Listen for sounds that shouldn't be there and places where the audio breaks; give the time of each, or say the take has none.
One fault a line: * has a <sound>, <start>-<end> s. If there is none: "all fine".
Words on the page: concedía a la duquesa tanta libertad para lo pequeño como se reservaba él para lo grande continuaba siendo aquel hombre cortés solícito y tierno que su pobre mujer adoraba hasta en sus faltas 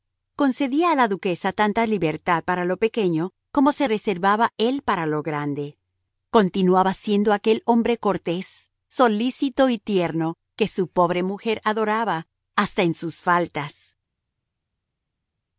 all fine